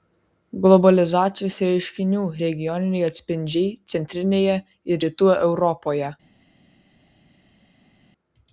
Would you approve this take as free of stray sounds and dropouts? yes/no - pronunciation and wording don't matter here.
yes